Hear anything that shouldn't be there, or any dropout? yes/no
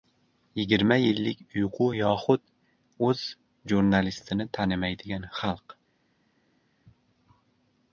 no